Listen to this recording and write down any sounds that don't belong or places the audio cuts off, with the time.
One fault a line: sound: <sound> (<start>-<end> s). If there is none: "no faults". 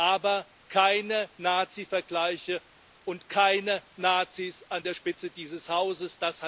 no faults